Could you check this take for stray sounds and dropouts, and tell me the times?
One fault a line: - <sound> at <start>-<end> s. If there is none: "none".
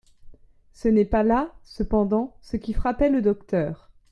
none